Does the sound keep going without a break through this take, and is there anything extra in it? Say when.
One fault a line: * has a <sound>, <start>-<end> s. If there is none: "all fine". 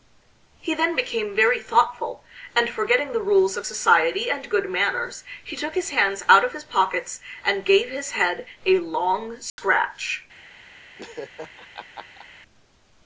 * has a dropout, 9.5-9.6 s
* has a laugh, 11.0-12.3 s